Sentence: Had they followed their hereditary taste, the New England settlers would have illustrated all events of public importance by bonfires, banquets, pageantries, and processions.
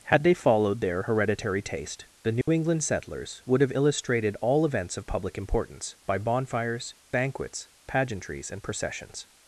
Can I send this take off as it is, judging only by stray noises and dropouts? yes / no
no